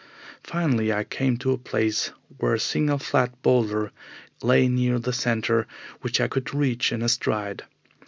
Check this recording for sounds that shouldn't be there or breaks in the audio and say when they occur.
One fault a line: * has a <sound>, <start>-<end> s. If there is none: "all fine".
all fine